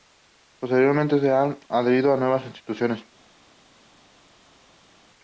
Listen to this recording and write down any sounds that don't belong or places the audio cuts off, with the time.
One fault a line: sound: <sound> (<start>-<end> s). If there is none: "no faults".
no faults